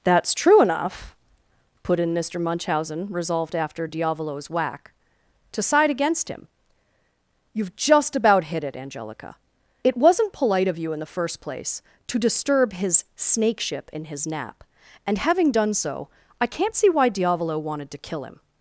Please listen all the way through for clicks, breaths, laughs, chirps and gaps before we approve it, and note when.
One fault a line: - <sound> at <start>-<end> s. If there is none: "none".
none